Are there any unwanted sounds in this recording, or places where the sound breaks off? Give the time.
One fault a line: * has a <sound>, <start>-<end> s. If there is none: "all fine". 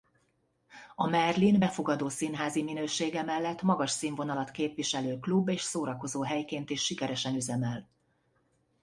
all fine